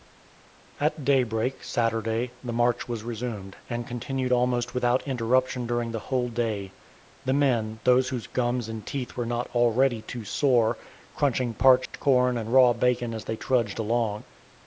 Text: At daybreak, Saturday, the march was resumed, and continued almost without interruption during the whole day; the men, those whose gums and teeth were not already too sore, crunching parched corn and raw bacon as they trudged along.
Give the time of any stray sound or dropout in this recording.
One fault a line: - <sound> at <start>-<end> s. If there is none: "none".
- dropout at 11.9-11.9 s